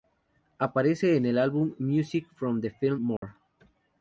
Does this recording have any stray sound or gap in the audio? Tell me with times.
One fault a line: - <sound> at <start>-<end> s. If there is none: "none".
- dropout at 3.2-3.2 s